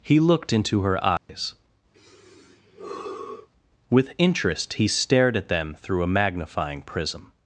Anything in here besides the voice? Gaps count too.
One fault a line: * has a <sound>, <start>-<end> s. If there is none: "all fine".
* has a dropout, 1.2-1.3 s
* has a sigh, 1.9-3.5 s